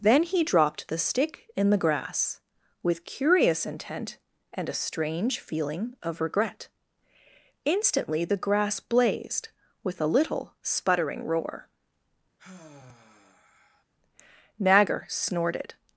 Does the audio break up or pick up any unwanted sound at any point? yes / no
yes